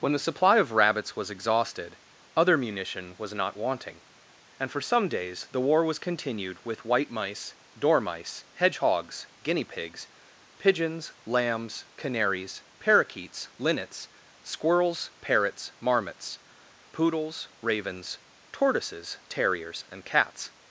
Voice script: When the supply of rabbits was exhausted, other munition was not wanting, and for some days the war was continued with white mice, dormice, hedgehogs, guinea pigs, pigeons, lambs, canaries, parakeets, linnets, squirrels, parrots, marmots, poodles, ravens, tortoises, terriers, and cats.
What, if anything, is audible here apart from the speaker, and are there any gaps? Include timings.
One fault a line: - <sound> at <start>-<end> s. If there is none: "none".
none